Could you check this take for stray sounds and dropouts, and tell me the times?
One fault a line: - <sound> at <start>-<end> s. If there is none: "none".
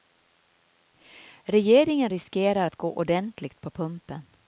none